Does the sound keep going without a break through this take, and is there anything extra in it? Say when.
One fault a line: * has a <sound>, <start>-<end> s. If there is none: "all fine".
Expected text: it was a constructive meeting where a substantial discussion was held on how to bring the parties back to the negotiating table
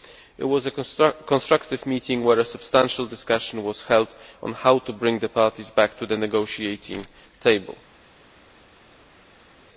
all fine